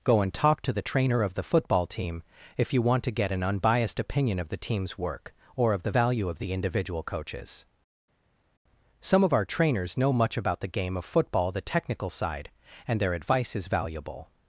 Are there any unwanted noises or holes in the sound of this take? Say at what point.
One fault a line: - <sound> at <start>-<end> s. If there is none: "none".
none